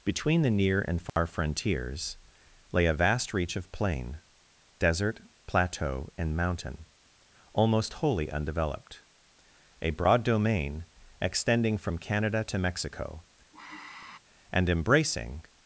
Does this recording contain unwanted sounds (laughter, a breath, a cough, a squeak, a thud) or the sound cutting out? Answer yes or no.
yes